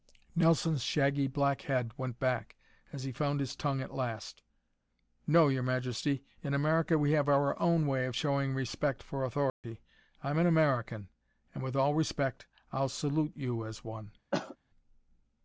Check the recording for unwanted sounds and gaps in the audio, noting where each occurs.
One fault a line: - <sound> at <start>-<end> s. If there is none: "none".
- dropout at 9.5-9.6 s
- cough at 14.3-14.6 s